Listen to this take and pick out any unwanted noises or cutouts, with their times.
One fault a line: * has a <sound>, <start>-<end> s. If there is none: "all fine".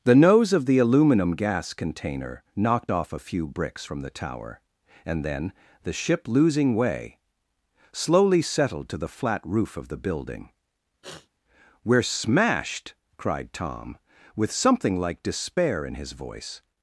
* has a sniff, 11.0-11.3 s